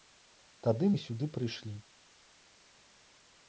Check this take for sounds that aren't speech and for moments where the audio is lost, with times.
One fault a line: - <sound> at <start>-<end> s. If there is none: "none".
none